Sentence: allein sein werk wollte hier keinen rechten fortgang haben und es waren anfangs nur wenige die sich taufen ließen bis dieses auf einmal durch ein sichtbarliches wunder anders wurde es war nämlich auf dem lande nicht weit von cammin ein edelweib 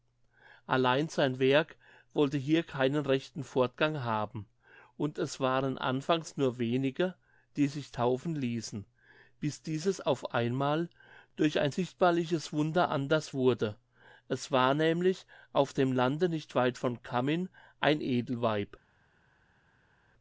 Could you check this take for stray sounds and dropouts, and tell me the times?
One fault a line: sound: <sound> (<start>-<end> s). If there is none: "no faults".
no faults